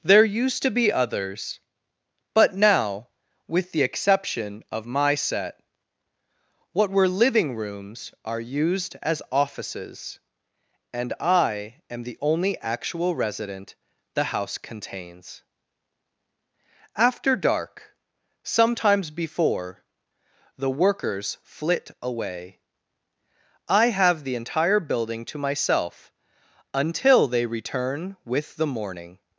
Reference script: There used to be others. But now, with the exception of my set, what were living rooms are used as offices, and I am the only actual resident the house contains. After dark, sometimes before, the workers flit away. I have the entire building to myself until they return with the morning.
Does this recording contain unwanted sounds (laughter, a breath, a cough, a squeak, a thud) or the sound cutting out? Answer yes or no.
no